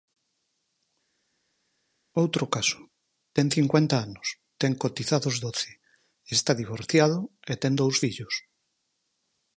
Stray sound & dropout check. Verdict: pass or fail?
pass